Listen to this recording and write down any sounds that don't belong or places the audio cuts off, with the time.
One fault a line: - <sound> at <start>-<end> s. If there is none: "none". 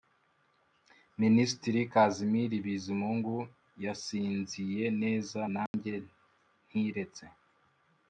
- dropout at 5.7-5.7 s